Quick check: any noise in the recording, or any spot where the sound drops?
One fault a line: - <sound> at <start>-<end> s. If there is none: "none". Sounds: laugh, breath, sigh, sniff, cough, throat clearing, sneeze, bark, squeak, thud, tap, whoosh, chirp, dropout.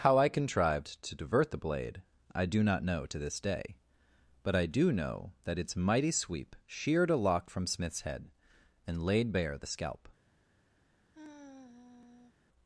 - sigh at 11.1-12.3 s